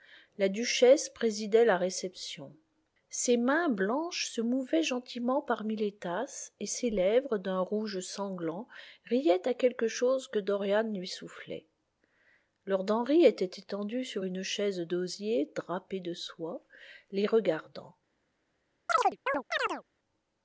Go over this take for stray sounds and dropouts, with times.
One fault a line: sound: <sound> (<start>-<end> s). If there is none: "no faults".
sound: chirp (18.9-19.8 s)